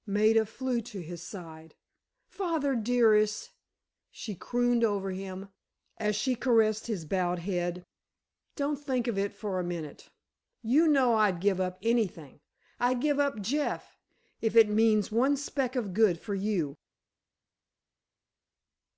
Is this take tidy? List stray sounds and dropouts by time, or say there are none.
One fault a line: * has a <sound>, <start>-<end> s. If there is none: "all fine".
all fine